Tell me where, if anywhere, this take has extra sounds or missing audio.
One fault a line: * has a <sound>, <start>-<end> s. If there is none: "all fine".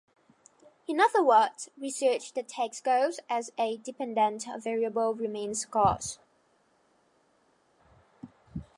all fine